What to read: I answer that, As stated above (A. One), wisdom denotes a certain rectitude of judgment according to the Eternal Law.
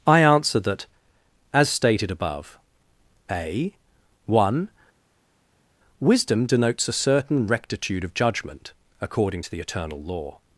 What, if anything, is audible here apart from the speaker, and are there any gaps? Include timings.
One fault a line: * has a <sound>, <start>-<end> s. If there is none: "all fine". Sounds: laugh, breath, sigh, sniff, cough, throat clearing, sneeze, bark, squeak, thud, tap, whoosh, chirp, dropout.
all fine